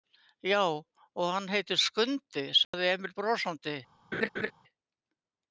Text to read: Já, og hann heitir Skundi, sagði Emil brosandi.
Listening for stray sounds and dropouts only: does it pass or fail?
fail